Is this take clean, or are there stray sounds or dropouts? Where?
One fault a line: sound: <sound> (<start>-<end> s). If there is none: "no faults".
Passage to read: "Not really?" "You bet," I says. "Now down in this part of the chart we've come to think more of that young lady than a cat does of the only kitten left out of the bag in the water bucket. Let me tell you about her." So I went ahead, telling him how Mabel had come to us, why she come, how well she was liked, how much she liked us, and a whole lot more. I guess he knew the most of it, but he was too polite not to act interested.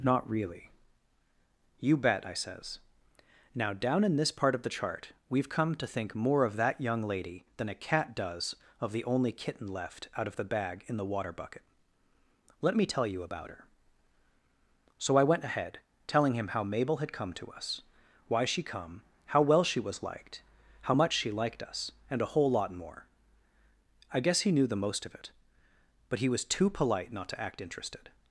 no faults